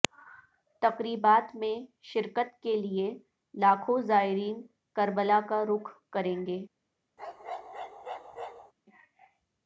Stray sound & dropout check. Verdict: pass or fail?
fail